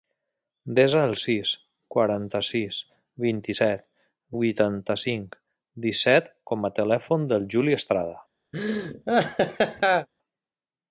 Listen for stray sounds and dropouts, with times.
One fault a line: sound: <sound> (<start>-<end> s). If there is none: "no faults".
sound: laugh (8.5-10.1 s)